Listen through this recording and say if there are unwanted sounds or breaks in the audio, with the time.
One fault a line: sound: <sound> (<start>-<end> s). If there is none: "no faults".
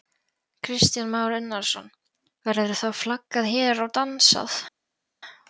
no faults